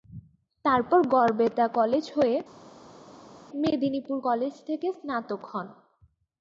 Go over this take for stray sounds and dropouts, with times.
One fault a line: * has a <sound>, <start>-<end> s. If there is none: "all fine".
all fine